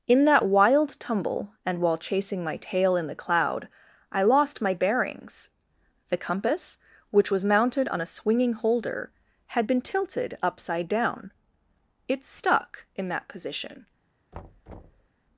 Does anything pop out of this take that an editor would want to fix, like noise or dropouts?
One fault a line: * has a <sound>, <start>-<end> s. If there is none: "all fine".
* has a thud, 14.3-15.1 s